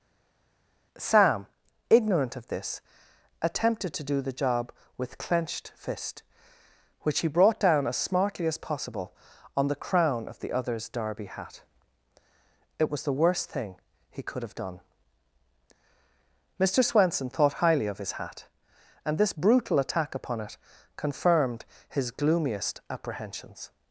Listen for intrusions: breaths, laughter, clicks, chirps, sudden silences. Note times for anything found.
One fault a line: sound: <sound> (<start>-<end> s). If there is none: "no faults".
no faults